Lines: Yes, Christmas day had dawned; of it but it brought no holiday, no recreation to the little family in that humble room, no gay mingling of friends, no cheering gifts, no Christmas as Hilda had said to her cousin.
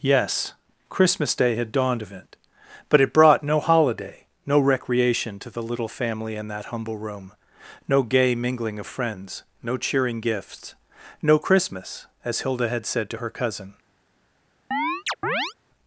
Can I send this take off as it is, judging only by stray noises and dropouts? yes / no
no